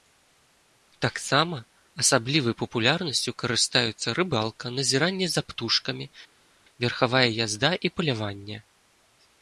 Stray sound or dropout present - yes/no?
no